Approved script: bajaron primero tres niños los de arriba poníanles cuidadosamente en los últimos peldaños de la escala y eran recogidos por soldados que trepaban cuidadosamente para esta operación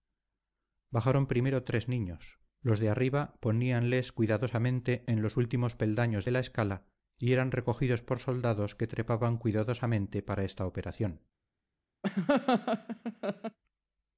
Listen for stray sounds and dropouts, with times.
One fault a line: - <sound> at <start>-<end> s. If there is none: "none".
- laugh at 12.0-13.6 s